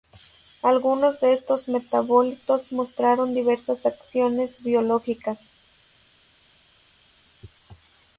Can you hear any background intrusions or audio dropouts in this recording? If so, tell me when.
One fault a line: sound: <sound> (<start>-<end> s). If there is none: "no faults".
no faults